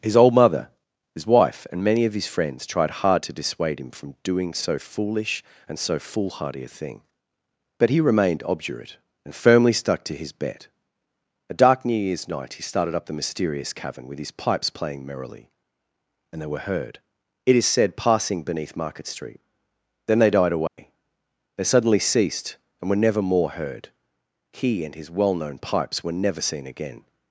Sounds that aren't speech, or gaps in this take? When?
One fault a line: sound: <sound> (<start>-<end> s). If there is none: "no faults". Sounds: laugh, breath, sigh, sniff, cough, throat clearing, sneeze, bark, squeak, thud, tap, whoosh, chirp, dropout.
sound: dropout (20.7-20.8 s)